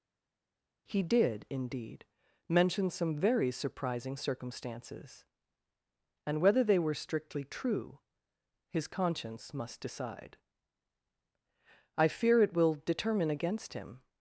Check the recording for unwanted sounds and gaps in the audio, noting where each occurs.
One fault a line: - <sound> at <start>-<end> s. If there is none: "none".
none